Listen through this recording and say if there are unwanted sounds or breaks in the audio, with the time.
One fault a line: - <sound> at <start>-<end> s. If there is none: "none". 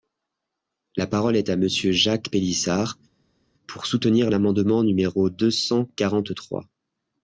none